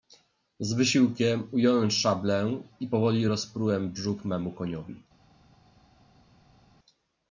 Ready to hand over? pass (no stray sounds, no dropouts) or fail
pass